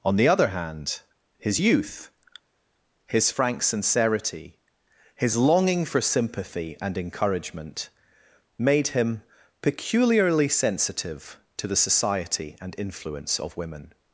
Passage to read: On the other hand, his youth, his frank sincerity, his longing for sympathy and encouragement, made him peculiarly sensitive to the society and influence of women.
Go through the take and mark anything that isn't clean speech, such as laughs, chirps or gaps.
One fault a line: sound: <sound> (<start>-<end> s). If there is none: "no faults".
no faults